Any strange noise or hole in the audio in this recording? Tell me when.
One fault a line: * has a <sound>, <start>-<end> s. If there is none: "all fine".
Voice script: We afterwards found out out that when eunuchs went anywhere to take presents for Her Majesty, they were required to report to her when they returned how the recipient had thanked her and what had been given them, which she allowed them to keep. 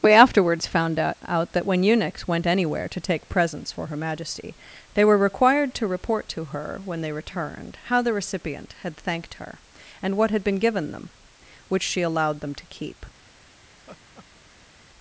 * has a laugh, 13.7-14.9 s